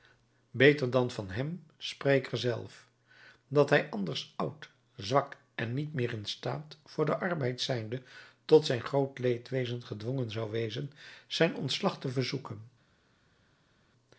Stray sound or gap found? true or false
false